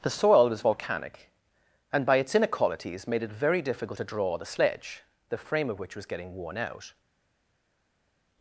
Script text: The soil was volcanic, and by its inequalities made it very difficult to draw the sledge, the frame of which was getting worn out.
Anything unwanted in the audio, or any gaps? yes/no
no